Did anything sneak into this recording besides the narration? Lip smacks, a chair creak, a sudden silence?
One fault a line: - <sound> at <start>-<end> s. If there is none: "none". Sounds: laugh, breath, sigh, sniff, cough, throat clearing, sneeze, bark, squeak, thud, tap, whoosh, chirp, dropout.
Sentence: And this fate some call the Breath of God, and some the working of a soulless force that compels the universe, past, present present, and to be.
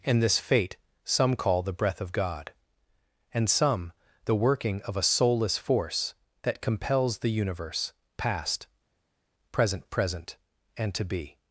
none